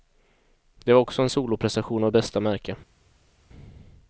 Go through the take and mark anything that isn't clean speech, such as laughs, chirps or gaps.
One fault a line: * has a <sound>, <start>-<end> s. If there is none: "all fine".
all fine